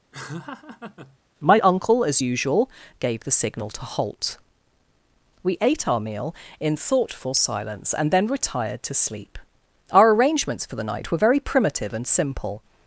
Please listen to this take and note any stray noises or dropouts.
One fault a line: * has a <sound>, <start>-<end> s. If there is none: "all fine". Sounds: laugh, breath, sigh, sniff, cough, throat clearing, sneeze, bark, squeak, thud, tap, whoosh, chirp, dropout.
* has a laugh, 0.1-1.2 s